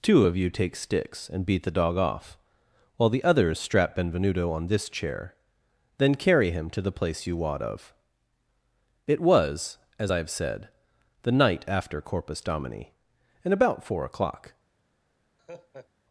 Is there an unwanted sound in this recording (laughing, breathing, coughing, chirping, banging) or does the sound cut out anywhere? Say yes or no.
yes